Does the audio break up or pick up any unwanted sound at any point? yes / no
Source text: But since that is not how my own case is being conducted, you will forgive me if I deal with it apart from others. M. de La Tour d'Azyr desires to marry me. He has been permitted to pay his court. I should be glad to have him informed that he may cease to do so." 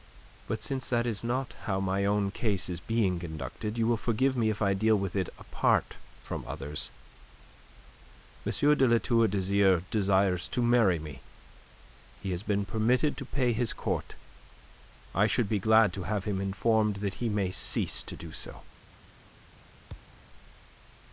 yes